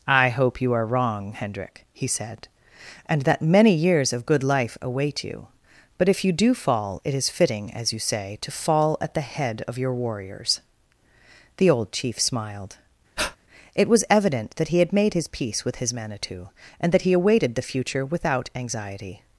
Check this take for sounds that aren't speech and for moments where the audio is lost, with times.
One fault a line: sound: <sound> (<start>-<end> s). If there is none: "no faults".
sound: breath (13.2-13.4 s)